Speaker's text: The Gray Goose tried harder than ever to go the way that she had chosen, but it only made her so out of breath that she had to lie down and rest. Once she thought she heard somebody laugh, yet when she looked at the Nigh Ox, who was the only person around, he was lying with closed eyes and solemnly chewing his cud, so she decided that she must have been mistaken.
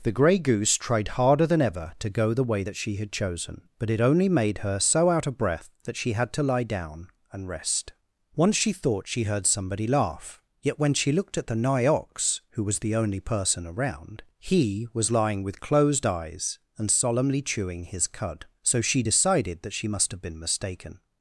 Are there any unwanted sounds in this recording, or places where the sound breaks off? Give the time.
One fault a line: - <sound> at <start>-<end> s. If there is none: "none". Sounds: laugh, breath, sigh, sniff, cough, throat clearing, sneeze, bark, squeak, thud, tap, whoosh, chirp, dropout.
none